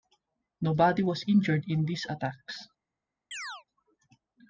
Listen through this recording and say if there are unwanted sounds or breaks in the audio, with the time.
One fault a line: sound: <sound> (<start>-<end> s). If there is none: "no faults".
sound: chirp (3.3-3.6 s)